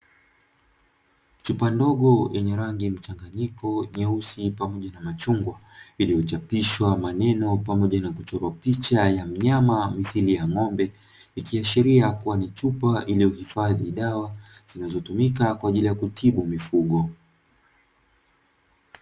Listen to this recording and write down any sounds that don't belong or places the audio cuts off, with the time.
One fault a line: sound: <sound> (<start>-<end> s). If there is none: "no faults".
no faults